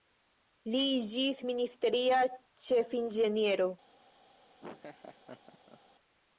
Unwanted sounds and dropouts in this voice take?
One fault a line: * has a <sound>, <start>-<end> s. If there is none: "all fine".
* has a laugh, 4.6-5.8 s